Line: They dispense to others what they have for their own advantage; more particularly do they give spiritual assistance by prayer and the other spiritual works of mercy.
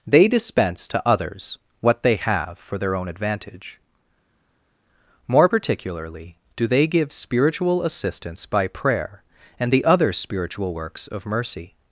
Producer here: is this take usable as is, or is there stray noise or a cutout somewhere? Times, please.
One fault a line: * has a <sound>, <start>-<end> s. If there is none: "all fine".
all fine